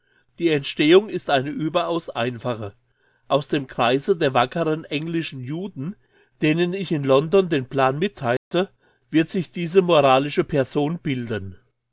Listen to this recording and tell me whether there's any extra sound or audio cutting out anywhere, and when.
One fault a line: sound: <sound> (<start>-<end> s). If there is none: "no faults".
sound: dropout (8.4-8.5 s)